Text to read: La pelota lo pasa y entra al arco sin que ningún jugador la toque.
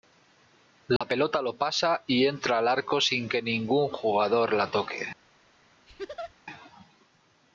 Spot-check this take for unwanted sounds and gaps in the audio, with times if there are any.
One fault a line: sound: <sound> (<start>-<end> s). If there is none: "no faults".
sound: dropout (1.0-1.0 s)
sound: laugh (5.9-6.3 s)